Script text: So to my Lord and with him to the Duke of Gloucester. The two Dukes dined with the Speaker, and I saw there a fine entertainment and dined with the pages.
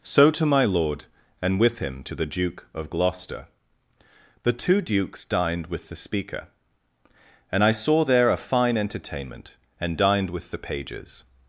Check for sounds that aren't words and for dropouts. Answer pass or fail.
pass